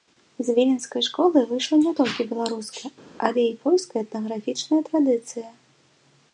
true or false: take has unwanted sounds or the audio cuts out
false